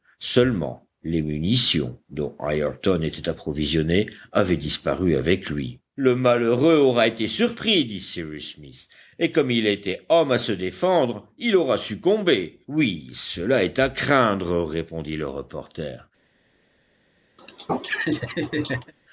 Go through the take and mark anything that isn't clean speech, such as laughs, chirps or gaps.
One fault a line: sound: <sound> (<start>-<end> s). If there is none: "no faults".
sound: laugh (17.4-18.9 s)